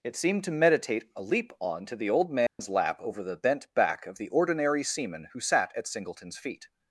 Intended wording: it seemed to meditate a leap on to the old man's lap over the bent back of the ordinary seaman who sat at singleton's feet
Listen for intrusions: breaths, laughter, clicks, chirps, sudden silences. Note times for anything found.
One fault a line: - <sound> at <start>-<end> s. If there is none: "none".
- dropout at 2.5-2.6 s